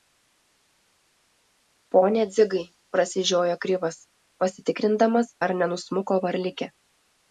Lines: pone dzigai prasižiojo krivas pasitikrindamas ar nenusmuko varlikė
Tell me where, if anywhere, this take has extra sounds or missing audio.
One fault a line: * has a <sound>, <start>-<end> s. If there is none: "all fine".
all fine